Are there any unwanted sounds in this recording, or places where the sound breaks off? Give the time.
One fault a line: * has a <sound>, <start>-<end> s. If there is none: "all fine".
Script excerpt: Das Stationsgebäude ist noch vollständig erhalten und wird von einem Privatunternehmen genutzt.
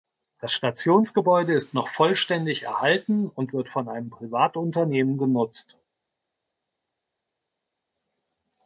all fine